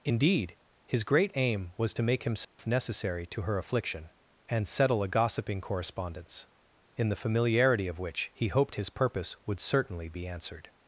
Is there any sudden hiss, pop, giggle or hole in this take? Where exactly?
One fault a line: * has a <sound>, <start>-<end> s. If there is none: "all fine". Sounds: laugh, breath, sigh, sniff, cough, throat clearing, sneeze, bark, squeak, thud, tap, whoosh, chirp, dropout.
* has a dropout, 2.4-2.6 s